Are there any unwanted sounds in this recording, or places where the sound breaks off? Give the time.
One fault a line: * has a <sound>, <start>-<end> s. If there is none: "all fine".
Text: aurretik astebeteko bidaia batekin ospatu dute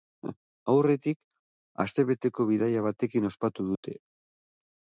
* has a dropout, 3.8-3.8 s